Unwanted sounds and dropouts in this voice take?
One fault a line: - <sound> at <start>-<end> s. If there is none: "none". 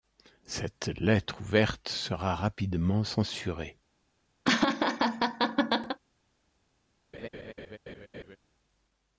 - laugh at 4.4-6.0 s
- laugh at 7.1-8.4 s